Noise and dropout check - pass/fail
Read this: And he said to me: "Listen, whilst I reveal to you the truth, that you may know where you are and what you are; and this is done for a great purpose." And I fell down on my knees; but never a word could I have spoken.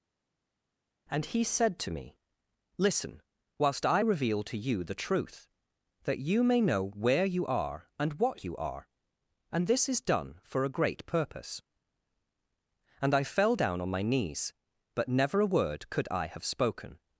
pass